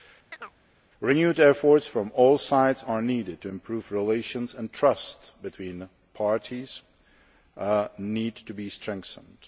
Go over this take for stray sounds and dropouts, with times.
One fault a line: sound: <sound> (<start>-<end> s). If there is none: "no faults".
sound: chirp (0.3-0.6 s)